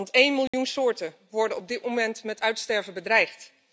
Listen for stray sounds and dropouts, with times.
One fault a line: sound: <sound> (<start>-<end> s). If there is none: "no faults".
sound: dropout (0.5-0.5 s)